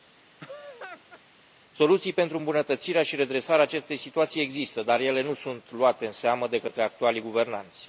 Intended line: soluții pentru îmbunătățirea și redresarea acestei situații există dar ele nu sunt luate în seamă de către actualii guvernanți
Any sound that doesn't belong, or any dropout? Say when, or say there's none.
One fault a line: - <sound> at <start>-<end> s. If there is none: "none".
- laugh at 0.4-1.2 s